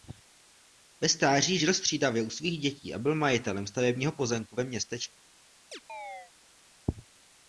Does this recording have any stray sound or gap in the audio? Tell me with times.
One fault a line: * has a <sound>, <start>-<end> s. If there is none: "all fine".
* has a chirp, 5.7-6.3 s